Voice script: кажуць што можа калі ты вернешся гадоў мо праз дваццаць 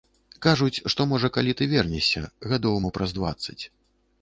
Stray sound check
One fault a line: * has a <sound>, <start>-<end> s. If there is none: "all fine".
all fine